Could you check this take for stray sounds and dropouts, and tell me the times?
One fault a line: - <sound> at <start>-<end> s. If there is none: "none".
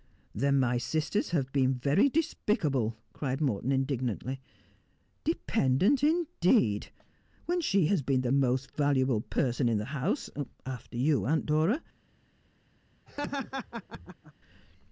- laugh at 13.1-14.3 s